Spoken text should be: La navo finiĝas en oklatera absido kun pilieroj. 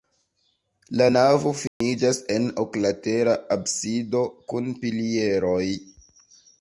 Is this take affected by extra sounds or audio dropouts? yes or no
yes